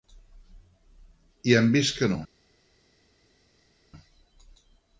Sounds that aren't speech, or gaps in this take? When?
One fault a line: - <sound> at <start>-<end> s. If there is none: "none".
none